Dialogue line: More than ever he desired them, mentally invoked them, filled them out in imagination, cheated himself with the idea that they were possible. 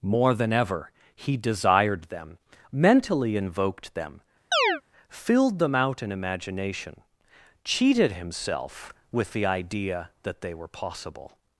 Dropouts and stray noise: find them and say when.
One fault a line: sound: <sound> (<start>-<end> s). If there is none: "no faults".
sound: chirp (4.5-4.8 s)